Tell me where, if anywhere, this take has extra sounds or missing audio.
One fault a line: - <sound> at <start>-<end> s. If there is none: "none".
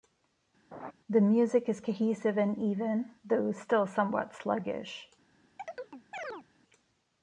- laugh at 0.7-0.9 s
- chirp at 5.6-6.5 s